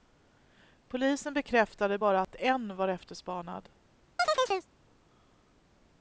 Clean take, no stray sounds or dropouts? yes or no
no